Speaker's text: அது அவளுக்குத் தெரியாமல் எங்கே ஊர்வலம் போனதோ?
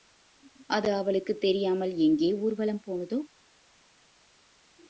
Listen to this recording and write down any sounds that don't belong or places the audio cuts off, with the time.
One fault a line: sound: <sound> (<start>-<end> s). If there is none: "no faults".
no faults